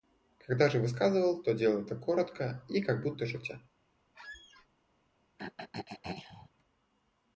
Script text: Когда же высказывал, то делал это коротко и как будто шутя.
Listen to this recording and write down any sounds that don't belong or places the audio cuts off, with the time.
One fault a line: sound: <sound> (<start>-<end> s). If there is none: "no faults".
sound: squeak (4.1-4.7 s)
sound: throat clearing (5.4-6.5 s)